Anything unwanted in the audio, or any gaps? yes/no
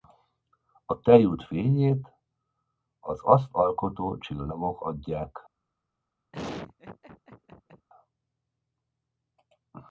yes